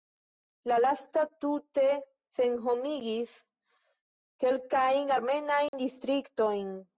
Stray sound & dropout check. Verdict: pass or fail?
fail